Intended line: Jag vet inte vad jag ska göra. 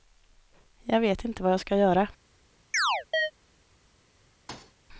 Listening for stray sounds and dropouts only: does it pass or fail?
fail